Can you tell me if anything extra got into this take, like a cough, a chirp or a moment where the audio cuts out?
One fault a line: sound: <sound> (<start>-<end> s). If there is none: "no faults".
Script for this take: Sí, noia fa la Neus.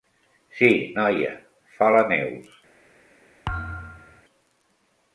sound: thud (3.5-4.2 s)